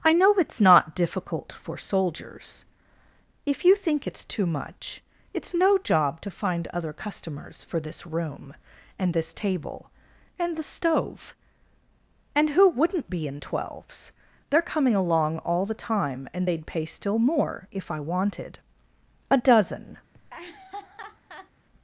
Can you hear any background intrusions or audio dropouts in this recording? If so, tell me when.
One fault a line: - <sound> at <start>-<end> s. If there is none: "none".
- laugh at 20.1-21.5 s